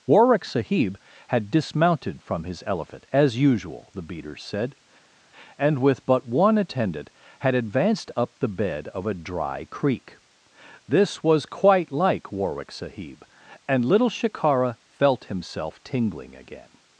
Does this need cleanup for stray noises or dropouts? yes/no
no